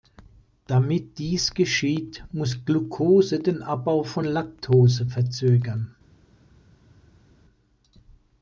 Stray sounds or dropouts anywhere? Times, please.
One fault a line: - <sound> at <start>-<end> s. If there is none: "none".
none